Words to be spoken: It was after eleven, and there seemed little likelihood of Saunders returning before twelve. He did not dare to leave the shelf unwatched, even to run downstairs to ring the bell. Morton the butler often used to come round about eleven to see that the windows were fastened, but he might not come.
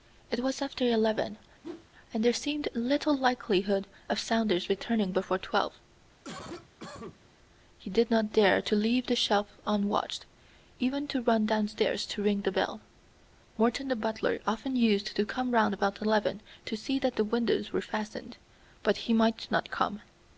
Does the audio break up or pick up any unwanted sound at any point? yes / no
yes